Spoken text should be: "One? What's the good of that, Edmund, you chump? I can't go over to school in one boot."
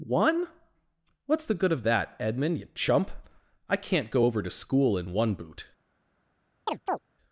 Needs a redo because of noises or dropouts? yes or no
yes